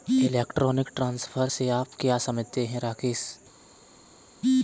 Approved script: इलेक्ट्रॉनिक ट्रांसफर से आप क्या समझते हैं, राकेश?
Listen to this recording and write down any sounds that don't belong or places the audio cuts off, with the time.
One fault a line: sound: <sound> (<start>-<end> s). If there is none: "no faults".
no faults